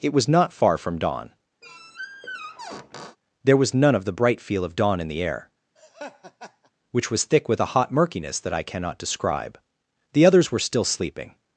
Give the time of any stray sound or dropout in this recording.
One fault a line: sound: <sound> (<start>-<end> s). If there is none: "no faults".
sound: squeak (1.6-3.2 s)
sound: laugh (5.8-6.7 s)